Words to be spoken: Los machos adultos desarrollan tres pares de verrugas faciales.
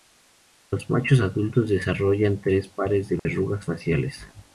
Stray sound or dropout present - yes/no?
yes